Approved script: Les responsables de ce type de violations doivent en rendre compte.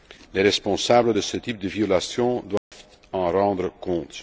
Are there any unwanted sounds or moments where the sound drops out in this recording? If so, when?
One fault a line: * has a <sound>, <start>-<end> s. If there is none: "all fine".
* has a dropout, 2.6-2.7 s